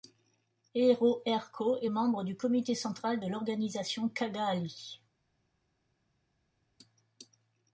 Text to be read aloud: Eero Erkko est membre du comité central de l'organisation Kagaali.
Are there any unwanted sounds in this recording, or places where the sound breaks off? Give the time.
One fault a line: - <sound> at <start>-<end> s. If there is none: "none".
none